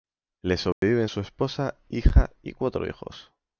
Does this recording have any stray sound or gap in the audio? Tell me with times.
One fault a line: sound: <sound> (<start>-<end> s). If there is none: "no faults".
sound: dropout (0.7-0.8 s)